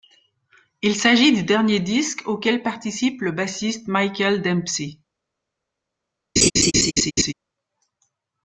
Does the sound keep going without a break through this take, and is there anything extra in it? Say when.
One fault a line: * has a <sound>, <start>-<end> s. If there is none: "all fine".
* has a laugh, 6.4-7.3 s